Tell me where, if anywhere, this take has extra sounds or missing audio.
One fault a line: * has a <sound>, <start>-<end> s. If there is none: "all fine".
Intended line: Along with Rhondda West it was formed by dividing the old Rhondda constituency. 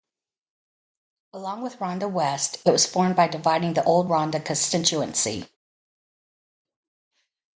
all fine